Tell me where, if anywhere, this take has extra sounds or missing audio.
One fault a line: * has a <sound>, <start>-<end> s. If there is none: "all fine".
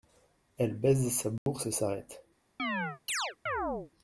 * has a dropout, 1.4-1.5 s
* has a chirp, 2.6-3.9 s